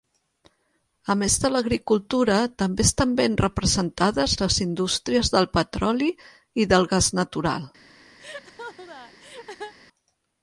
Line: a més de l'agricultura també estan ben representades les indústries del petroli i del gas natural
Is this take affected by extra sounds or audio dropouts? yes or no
yes